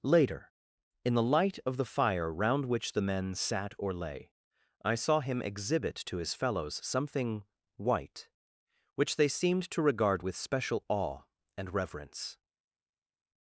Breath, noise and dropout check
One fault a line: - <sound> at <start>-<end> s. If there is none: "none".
none